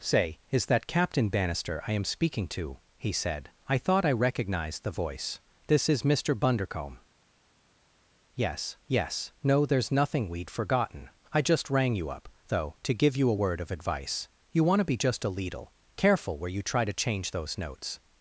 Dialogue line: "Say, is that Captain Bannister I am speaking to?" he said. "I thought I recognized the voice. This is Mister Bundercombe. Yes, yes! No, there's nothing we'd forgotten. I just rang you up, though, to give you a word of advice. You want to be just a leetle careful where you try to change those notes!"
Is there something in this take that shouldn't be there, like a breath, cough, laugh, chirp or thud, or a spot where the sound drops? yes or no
no